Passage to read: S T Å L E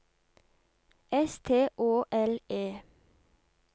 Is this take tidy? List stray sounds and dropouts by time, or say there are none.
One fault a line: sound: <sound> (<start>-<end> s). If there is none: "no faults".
no faults